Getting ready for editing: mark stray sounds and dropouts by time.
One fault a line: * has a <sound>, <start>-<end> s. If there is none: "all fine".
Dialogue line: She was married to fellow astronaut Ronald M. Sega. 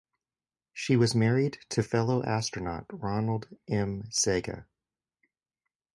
all fine